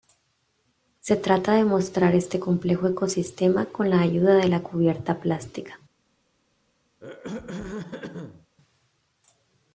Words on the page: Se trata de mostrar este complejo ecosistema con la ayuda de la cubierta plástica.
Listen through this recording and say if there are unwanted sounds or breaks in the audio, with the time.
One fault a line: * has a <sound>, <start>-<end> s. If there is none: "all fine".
* has a throat clearing, 7.0-8.5 s